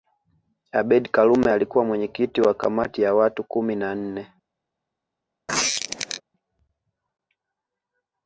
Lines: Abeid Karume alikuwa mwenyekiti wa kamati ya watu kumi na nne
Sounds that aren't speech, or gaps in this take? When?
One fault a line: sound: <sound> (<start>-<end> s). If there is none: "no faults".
sound: squeak (5.5-6.2 s)